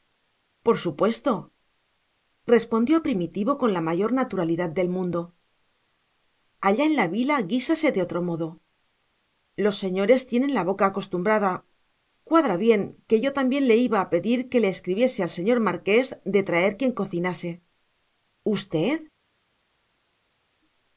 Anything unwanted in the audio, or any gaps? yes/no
no